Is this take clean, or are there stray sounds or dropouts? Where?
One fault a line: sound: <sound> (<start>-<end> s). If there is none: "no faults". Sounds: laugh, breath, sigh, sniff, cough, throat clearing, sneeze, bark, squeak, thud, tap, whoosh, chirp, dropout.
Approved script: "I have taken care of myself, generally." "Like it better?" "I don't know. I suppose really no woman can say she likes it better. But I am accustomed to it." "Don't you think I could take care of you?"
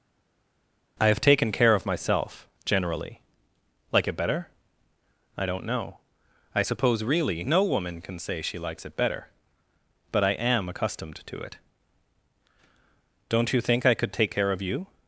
no faults